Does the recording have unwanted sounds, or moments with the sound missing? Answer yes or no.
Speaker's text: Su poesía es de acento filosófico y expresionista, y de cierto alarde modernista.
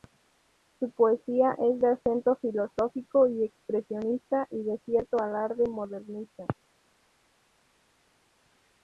no